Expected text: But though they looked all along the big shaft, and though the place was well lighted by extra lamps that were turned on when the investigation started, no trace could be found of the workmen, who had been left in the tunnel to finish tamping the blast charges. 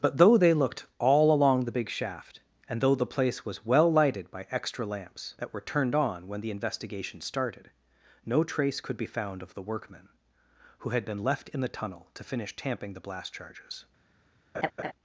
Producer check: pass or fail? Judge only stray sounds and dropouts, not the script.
fail